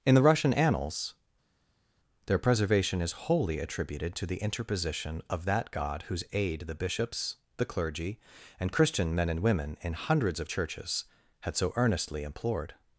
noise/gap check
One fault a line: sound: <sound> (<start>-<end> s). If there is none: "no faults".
no faults